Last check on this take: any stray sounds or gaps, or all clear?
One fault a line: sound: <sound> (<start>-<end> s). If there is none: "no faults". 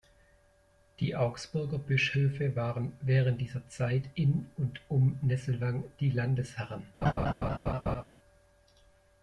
sound: laugh (7.0-8.0 s)